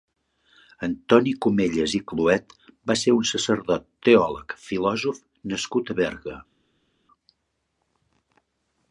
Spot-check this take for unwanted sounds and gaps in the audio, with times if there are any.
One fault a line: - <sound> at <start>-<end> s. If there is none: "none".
none